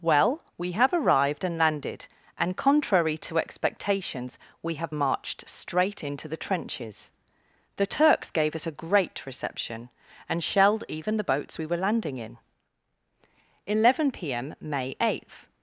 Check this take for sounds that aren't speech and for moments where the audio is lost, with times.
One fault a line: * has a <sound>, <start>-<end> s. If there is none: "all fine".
all fine